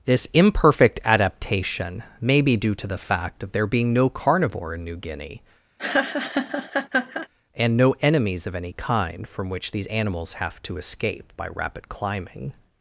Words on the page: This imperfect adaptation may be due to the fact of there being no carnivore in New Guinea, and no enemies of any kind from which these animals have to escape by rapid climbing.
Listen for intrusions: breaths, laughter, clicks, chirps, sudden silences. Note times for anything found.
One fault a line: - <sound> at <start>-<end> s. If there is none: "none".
- laugh at 5.8-7.3 s